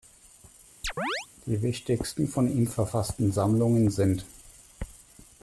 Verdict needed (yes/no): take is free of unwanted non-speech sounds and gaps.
no